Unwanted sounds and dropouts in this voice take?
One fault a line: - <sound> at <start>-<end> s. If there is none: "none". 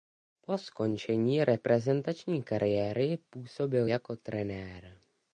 none